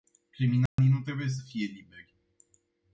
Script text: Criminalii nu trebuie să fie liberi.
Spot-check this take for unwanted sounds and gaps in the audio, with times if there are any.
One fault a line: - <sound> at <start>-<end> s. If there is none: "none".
- dropout at 0.7-0.8 s